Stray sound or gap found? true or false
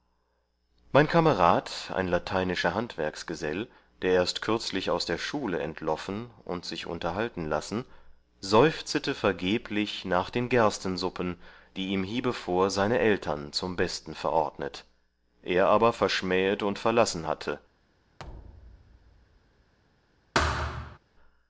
true